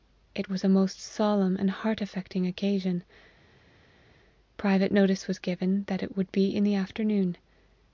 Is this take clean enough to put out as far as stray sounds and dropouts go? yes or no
yes